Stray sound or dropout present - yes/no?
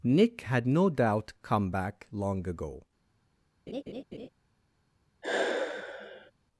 yes